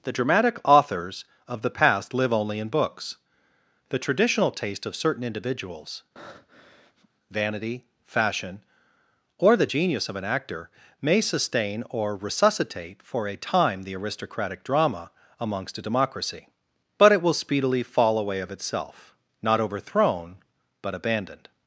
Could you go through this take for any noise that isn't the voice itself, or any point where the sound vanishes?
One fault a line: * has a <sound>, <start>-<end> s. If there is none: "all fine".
* has a breath, 6.2-7.1 s